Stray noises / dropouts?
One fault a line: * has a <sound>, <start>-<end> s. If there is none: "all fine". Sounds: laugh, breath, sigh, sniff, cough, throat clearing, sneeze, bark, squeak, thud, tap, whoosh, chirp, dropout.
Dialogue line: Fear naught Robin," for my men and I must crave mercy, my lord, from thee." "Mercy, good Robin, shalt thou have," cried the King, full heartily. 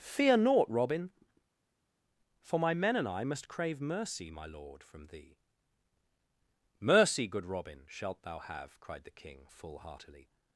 all fine